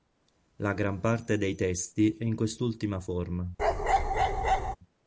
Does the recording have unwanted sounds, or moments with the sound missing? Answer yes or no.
yes